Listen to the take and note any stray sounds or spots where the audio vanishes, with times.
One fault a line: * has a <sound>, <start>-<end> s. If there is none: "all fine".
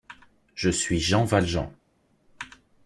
all fine